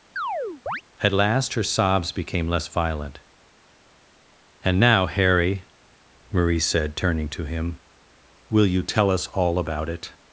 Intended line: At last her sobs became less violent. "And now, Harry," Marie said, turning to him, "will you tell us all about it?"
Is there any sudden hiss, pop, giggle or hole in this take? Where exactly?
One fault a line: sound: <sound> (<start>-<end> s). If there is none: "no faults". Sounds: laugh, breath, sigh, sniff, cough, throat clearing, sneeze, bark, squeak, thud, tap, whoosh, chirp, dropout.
sound: chirp (0.2-0.8 s)